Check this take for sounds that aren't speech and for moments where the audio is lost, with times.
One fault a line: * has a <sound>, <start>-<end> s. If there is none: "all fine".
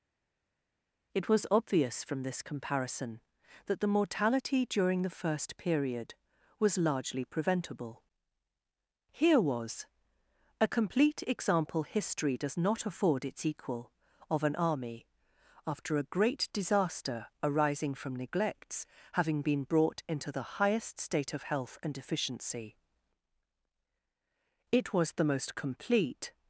all fine